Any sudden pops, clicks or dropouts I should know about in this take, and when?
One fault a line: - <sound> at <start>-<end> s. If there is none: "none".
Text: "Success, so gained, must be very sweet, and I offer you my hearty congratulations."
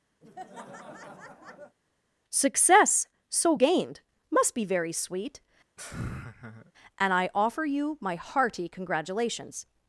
- laugh at 0.2-1.8 s
- laugh at 5.8-6.7 s